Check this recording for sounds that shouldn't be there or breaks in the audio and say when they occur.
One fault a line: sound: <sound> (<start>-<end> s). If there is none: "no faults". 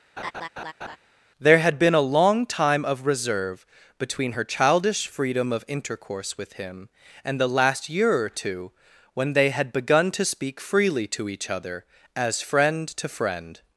sound: laugh (0.2-1.0 s)